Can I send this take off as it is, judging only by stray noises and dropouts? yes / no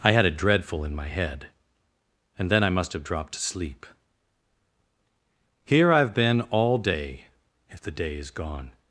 yes